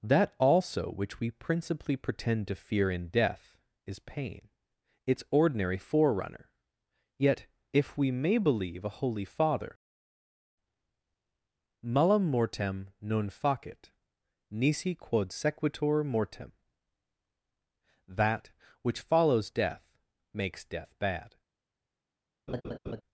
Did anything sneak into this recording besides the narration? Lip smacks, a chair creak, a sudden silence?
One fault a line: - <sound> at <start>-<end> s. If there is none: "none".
- laugh at 22.5-23.0 s